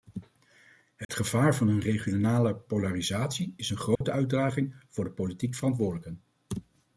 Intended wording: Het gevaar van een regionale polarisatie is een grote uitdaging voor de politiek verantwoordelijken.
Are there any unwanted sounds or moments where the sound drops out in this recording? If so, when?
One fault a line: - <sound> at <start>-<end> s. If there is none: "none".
- dropout at 1.0-1.1 s
- dropout at 4.0-4.0 s